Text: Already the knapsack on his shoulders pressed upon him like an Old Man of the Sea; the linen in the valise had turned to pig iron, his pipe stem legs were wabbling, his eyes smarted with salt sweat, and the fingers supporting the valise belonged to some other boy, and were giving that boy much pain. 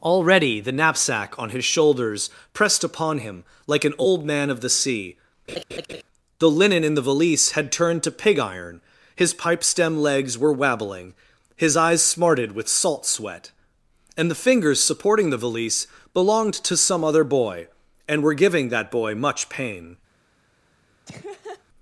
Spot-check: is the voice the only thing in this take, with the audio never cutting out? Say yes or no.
no